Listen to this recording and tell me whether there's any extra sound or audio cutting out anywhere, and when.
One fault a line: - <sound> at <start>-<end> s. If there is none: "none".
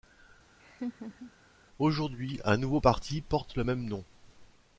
- laugh at 0.6-1.3 s